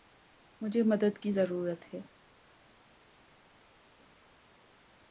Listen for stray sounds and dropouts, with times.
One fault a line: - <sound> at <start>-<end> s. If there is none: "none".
none